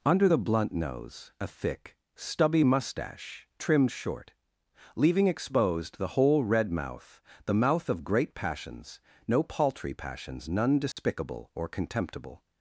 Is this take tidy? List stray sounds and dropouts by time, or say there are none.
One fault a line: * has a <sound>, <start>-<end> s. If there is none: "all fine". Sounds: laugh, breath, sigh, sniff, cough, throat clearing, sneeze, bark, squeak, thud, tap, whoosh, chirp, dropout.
* has a dropout, 10.9-11.0 s